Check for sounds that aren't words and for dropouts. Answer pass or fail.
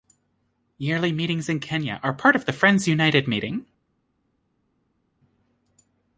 pass